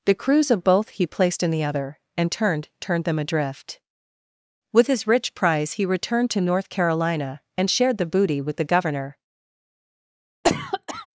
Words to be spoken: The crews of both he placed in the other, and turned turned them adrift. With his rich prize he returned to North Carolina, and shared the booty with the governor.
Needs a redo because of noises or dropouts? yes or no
yes